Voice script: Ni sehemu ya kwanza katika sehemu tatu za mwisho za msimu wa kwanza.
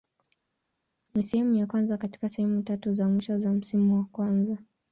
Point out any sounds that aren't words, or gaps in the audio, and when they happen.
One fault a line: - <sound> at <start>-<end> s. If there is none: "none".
none